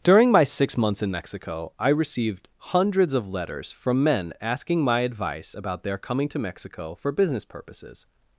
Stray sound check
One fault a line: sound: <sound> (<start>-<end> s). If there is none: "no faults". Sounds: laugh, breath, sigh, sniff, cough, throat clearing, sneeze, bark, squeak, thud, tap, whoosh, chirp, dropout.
no faults